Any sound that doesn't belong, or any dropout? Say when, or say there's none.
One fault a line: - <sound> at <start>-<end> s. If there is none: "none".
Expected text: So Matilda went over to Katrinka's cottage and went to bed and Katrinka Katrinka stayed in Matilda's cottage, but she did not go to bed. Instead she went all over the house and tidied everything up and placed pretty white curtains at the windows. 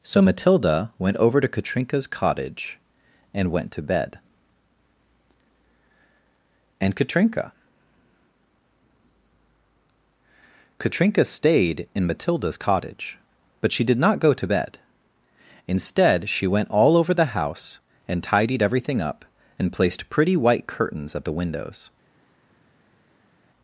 none